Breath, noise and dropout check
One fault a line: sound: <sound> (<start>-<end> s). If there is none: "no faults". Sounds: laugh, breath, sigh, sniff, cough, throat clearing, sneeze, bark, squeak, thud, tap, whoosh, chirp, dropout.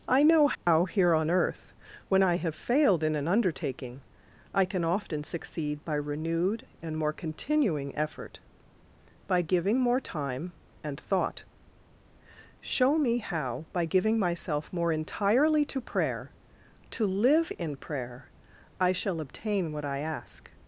sound: dropout (0.6-0.7 s)